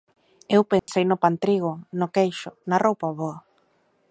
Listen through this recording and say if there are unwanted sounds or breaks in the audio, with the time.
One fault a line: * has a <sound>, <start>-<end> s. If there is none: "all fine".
* has a dropout, 0.8-0.9 s